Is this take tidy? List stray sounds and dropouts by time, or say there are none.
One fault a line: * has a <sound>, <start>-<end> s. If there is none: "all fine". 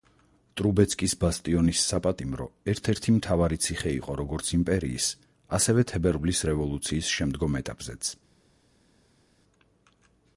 all fine